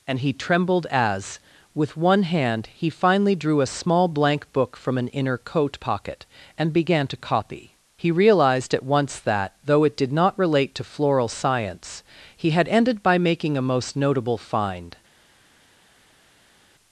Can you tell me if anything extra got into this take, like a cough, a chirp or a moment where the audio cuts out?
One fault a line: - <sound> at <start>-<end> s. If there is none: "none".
none